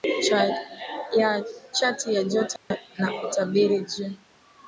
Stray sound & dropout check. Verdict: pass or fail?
fail